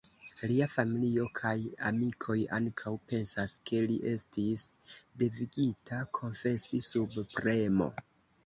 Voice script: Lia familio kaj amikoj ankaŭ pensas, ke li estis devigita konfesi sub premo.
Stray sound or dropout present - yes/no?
no